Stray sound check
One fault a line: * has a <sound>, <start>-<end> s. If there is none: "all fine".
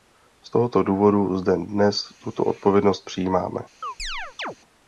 * has a chirp, 3.8-4.6 s